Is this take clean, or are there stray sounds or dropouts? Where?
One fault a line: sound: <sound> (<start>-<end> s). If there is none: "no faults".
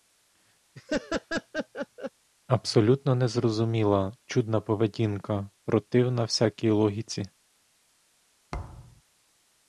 sound: laugh (0.7-2.1 s)
sound: thud (8.5-9.0 s)